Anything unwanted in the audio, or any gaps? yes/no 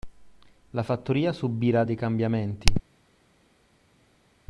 no